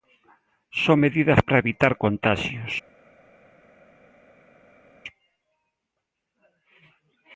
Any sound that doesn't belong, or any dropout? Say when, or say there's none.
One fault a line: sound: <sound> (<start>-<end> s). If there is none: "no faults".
no faults